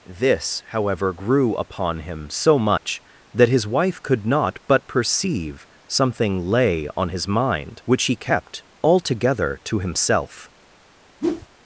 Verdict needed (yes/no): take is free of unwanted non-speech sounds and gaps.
no